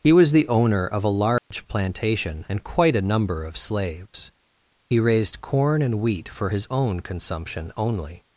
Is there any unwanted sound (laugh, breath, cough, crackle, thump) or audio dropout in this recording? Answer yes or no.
yes